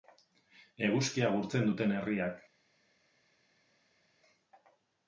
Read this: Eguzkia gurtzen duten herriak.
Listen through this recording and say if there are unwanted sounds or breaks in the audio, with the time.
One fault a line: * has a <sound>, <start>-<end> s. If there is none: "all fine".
all fine